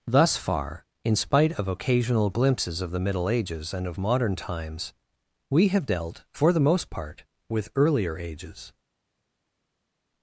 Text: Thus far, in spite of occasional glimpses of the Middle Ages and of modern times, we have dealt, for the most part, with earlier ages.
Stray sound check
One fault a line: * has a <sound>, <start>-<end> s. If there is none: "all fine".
all fine